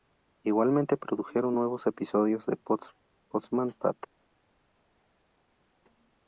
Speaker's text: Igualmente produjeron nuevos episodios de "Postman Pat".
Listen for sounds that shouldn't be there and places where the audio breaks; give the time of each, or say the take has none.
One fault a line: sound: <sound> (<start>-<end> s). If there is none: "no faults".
no faults